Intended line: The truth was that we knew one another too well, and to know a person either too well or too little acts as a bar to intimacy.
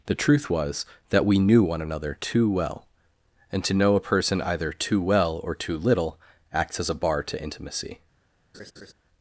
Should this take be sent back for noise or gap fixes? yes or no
yes